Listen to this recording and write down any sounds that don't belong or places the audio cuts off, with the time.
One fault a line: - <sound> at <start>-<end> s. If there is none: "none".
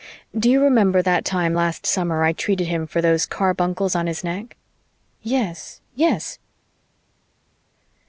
none